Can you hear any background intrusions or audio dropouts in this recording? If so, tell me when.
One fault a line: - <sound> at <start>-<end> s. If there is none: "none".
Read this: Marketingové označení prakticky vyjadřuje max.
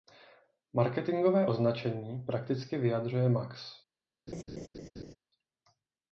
- laugh at 4.3-5.2 s